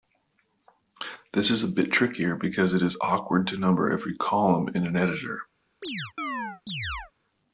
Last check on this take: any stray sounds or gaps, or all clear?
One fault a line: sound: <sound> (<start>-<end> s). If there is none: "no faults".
sound: chirp (5.8-7.1 s)